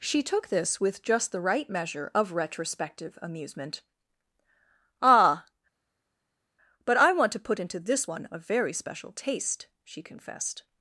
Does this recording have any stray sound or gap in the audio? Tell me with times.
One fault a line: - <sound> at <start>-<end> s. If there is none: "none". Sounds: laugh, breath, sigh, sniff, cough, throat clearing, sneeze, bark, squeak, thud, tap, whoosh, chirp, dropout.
none